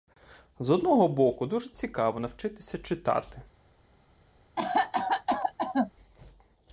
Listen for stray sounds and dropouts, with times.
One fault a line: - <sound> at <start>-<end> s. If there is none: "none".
- cough at 4.6-5.9 s